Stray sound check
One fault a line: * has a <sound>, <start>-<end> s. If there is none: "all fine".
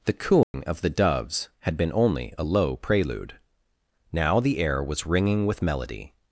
* has a dropout, 0.4-0.5 s